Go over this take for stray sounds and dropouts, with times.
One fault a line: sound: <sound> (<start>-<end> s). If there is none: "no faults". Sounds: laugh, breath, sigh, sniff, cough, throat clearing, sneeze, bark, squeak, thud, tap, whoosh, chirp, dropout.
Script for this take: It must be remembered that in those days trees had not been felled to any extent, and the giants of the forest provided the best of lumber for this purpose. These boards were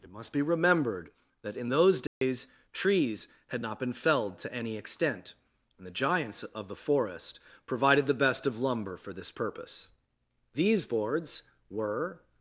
sound: dropout (2.1-2.2 s)